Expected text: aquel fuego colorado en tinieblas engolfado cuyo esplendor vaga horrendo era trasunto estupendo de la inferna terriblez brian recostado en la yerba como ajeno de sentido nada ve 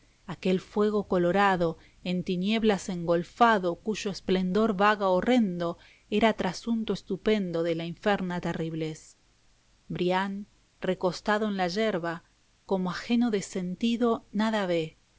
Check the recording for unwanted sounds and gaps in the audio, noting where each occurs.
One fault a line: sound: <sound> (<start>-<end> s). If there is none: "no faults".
no faults